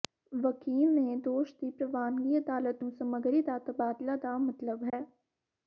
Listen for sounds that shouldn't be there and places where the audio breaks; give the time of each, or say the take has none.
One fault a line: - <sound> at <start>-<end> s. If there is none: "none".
- dropout at 4.9-4.9 s